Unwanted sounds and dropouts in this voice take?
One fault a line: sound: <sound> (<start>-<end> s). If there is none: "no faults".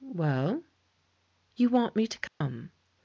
sound: dropout (2.3-2.4 s)